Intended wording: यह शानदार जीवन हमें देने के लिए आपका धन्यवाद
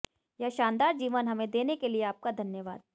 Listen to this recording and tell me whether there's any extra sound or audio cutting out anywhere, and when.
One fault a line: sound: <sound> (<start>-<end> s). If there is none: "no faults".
no faults